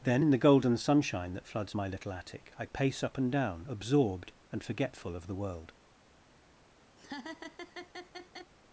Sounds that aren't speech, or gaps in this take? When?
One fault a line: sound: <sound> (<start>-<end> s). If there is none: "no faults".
sound: laugh (7.0-8.5 s)